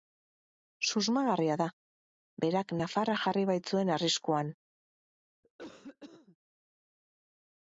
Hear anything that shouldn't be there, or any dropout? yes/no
yes